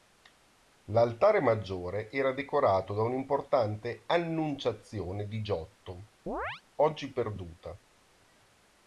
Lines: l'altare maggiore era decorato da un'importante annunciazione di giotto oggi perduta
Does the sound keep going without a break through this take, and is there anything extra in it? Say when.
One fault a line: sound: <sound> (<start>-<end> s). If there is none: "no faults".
sound: chirp (6.3-6.6 s)